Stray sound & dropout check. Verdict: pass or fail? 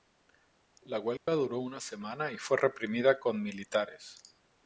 fail